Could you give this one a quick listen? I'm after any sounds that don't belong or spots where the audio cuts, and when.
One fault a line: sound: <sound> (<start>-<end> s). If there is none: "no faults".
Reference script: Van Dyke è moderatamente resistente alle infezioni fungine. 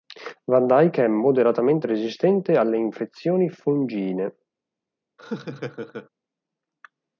sound: laugh (5.2-6.1 s)